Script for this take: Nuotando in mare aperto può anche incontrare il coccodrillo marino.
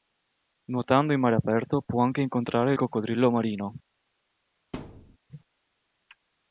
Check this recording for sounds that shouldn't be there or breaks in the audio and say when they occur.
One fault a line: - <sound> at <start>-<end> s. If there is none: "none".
- thud at 4.7-5.2 s